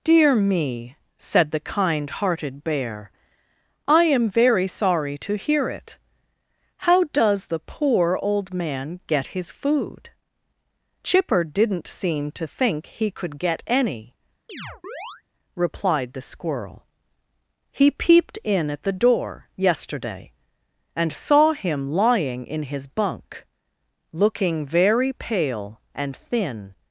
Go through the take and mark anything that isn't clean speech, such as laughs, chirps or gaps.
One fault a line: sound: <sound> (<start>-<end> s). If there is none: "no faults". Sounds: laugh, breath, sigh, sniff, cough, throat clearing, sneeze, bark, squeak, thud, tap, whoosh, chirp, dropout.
sound: chirp (14.5-15.2 s)